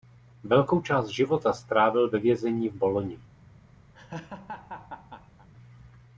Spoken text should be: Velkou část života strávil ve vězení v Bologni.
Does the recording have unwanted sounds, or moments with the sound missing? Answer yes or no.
yes